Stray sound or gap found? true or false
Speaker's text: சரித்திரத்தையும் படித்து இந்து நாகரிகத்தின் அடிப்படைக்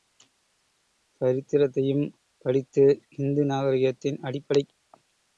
false